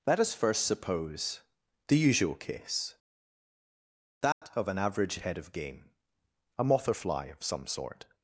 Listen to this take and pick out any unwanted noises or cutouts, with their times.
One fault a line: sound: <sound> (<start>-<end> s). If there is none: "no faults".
sound: dropout (4.3-4.4 s)